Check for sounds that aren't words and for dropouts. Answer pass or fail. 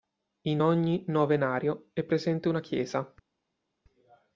pass